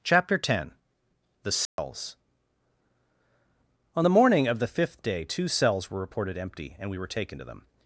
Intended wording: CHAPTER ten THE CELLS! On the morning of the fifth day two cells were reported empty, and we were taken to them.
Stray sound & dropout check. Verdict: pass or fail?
fail